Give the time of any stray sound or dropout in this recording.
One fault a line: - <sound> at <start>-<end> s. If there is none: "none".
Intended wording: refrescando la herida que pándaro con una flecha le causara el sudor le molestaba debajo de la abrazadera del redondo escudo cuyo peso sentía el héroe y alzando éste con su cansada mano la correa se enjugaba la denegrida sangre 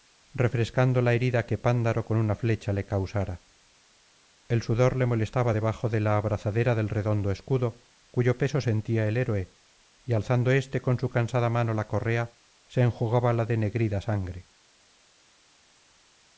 none